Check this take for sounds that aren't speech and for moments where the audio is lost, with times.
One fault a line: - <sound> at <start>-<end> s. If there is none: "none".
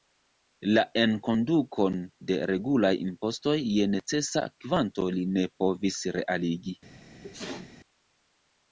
- sneeze at 7.2-7.8 s